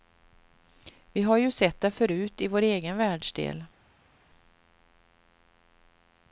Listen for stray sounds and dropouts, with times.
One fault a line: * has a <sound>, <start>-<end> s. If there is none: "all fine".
all fine